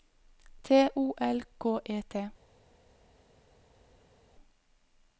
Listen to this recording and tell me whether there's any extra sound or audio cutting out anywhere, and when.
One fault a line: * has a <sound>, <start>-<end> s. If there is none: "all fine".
all fine